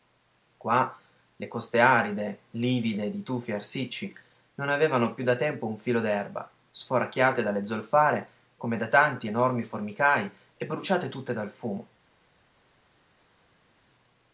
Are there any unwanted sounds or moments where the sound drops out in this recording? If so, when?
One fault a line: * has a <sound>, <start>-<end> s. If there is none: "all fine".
all fine